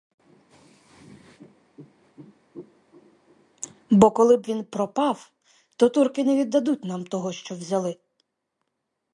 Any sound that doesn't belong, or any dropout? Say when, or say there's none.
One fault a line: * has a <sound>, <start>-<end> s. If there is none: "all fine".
all fine